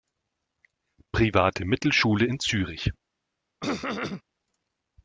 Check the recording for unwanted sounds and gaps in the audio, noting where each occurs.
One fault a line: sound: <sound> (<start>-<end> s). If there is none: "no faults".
sound: throat clearing (3.6-4.2 s)